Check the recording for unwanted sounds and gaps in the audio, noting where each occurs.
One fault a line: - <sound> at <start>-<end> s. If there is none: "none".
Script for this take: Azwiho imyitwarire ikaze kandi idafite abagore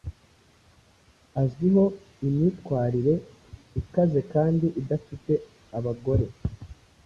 none